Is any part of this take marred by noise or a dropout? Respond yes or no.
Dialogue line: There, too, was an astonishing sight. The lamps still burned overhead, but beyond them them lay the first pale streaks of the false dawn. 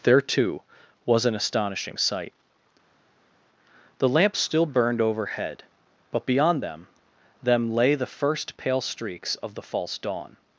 no